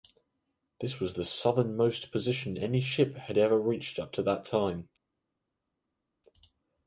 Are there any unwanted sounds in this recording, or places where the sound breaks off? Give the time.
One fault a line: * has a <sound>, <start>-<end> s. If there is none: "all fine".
all fine